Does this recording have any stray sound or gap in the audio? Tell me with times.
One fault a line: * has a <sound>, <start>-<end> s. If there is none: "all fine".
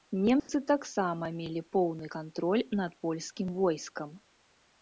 * has a dropout, 0.4-0.5 s